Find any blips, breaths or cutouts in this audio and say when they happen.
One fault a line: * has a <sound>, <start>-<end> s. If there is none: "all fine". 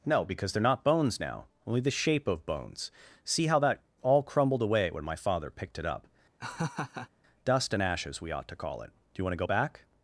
* has a laugh, 6.4-7.1 s